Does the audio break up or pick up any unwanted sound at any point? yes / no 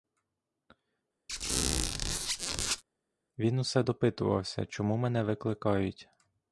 yes